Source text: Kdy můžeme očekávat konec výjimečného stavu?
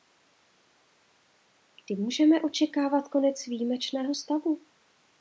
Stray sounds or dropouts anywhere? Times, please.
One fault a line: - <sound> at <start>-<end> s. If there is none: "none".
none